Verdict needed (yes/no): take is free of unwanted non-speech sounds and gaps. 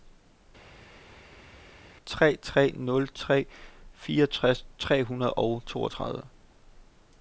yes